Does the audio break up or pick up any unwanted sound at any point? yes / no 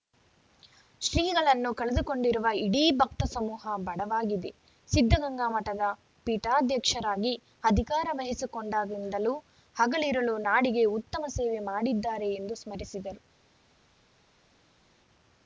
no